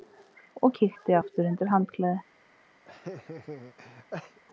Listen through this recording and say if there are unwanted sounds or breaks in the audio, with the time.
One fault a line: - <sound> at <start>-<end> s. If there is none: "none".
- laugh at 2.8-4.4 s